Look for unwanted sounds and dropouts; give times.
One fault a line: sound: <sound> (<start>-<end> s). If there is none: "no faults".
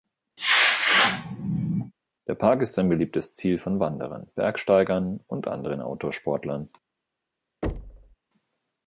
sound: sneeze (0.4-1.9 s)
sound: thud (7.6-8.2 s)